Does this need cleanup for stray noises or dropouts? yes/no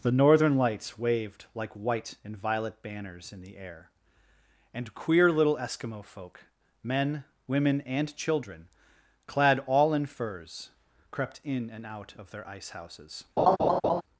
yes